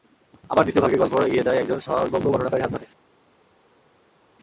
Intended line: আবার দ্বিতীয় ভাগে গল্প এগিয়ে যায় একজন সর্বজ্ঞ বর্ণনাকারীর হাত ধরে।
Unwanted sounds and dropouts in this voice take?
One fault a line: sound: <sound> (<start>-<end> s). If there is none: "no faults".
no faults